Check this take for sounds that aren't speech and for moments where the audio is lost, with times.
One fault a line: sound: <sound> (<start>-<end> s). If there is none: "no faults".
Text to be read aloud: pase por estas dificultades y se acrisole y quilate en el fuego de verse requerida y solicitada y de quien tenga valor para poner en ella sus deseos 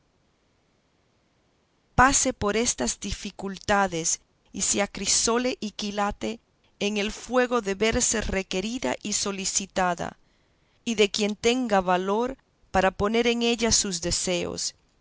no faults